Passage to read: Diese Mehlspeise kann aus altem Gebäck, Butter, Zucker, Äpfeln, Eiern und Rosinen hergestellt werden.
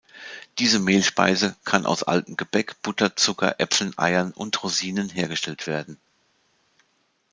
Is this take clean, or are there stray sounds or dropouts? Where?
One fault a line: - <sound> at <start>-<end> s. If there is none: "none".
none